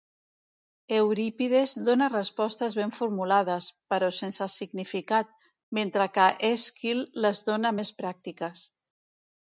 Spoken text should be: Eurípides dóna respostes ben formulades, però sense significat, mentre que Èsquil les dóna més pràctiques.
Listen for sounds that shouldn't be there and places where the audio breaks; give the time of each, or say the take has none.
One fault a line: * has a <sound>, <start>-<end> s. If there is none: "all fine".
all fine